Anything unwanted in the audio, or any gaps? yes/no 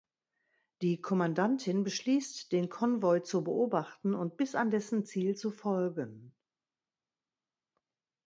no